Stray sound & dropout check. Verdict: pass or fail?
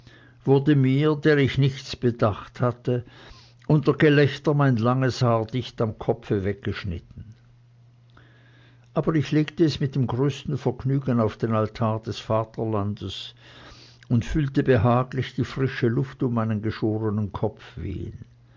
pass